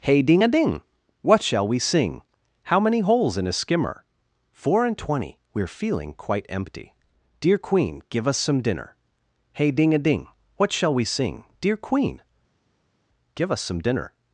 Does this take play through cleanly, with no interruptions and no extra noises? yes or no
yes